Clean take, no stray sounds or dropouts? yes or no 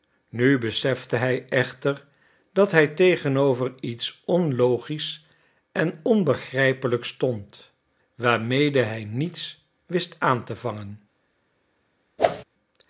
no